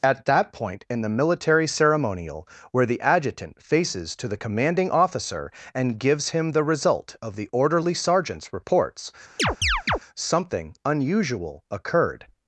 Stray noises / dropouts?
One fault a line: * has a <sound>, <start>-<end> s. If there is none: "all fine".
* has a chirp, 9.4-10.0 s